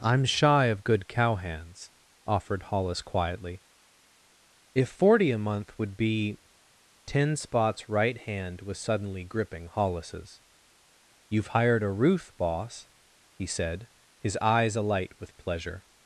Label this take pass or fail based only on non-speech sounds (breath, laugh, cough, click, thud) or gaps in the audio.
pass